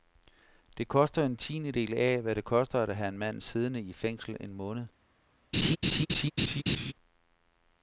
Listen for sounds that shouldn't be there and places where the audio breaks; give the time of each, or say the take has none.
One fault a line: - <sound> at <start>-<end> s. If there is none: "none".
- laugh at 5.5-6.9 s